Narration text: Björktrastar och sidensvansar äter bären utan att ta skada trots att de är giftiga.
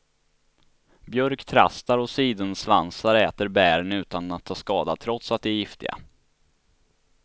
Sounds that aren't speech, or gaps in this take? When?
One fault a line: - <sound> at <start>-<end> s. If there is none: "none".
none